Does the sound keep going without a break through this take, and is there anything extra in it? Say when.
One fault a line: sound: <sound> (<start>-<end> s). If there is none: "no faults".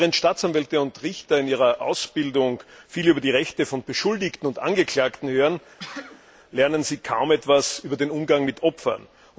sound: sneeze (5.8-6.2 s)